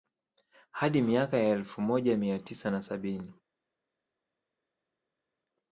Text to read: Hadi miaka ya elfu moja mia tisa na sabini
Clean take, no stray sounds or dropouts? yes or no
yes